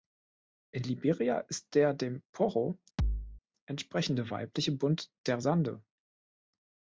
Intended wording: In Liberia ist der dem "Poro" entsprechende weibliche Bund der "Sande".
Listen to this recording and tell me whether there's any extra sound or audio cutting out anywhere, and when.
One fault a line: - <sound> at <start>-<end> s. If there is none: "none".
- thud at 3.0-3.4 s